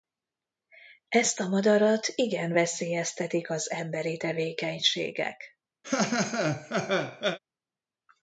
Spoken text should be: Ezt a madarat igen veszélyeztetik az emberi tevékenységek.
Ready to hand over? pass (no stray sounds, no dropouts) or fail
fail